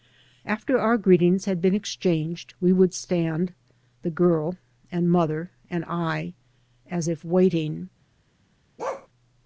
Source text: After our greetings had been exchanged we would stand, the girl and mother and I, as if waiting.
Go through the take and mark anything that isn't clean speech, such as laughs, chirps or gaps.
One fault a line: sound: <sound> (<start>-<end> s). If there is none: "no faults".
sound: bark (8.8-9.1 s)